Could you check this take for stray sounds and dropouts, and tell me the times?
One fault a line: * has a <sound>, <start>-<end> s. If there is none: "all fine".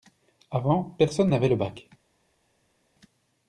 all fine